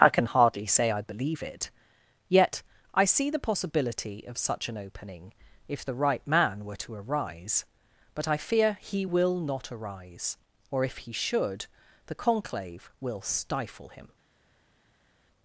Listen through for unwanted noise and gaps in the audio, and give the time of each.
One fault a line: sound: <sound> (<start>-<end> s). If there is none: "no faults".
no faults